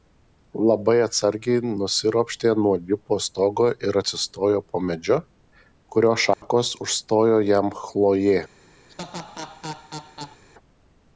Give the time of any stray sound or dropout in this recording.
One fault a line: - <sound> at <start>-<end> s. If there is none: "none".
- dropout at 6.3-6.4 s
- laugh at 8.9-10.4 s